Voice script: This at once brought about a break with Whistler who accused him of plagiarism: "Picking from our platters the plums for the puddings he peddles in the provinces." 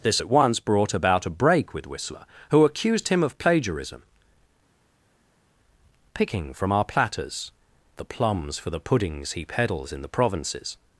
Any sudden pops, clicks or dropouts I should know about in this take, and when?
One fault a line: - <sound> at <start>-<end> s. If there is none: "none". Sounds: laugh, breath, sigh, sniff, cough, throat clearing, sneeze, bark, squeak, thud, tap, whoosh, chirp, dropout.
none